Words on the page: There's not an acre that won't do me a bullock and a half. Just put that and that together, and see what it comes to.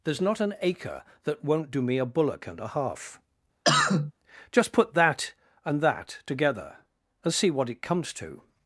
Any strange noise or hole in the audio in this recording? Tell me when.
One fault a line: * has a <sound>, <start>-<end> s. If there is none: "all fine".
* has a cough, 3.6-4.1 s